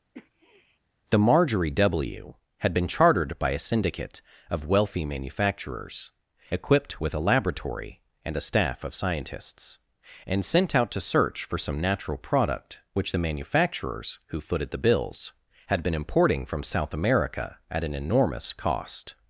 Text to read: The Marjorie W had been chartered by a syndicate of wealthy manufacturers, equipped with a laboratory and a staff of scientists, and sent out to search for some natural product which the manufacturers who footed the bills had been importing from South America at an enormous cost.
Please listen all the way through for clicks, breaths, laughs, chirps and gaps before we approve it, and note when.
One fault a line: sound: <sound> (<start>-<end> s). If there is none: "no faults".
sound: sniff (0.1-0.8 s)